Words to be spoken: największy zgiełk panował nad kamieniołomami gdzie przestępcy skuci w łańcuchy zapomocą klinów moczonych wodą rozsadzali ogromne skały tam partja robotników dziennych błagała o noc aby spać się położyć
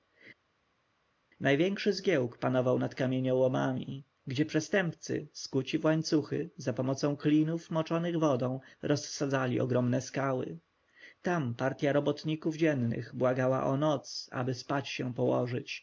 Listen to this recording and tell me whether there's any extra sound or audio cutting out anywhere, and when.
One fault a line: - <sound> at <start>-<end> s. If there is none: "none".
none